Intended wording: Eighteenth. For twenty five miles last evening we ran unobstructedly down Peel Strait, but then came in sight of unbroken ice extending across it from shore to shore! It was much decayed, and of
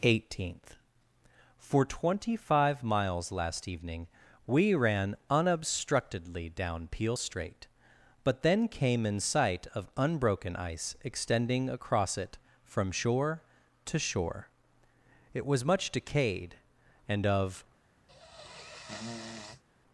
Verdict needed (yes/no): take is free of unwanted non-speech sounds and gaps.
no